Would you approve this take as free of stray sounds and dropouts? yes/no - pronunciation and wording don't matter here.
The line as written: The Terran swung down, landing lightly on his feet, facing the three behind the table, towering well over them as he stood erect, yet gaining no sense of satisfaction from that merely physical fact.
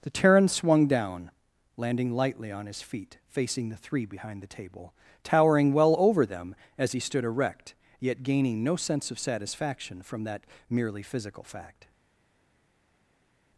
yes